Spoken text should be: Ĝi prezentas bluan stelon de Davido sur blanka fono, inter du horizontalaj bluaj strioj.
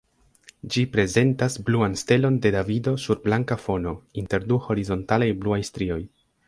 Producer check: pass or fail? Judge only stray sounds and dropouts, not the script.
pass